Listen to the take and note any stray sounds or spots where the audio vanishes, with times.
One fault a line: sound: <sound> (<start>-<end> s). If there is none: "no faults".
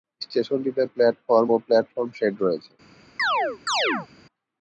sound: chirp (3.2-4.1 s)